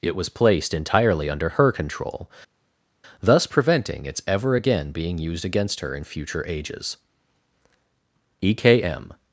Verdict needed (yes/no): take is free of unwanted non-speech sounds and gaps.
yes